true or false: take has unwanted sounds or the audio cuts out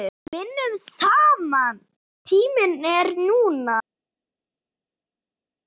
false